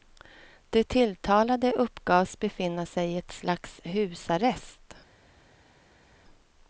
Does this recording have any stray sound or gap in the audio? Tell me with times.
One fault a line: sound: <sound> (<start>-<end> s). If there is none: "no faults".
no faults